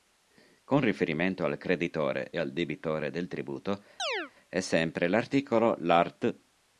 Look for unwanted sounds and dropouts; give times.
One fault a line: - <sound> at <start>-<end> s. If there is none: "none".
- chirp at 4.0-4.3 s